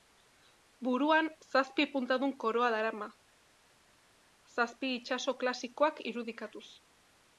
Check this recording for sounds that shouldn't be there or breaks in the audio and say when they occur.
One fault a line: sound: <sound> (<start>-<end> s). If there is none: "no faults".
no faults